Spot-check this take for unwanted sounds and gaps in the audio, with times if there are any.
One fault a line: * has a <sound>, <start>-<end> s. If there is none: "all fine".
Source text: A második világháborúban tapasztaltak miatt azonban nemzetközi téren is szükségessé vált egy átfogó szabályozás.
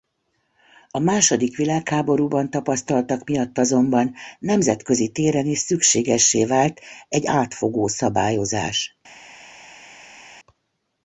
all fine